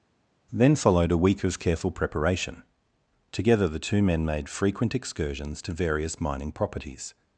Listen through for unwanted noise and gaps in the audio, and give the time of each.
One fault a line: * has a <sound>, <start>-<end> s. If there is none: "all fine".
all fine